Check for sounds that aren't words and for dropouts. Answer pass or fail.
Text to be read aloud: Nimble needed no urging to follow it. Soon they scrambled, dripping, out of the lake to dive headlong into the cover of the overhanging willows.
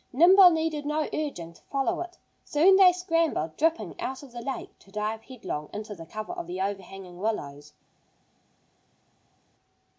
pass